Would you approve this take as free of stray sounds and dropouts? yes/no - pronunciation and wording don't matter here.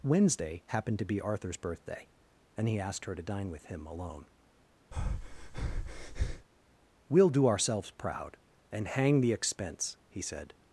no